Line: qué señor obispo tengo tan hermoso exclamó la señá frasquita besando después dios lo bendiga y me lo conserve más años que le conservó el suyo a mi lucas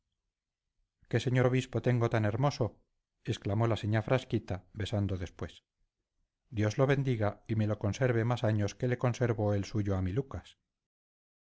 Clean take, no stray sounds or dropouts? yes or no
yes